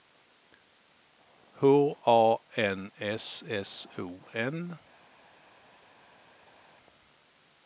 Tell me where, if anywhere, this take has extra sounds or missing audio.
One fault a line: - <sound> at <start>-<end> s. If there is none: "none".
none